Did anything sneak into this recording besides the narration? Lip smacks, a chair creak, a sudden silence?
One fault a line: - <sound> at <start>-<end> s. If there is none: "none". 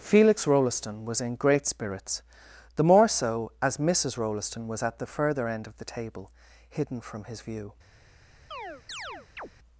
- chirp at 8.5-9.5 s